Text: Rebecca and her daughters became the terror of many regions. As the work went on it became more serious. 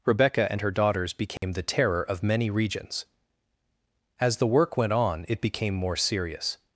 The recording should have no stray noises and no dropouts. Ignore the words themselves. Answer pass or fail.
fail